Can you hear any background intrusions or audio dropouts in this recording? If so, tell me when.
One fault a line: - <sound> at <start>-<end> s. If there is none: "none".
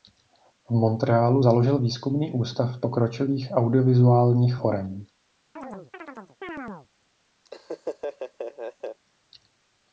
- chirp at 5.6-6.9 s
- laugh at 7.4-9.0 s